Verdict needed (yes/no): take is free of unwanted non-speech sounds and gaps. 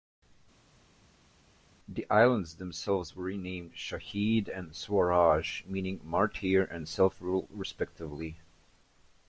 yes